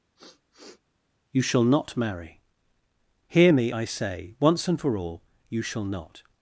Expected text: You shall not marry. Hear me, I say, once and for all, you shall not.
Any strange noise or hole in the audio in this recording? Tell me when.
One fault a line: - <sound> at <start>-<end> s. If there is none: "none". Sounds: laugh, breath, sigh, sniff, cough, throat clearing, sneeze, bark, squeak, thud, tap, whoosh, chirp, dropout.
- sniff at 0.2-0.8 s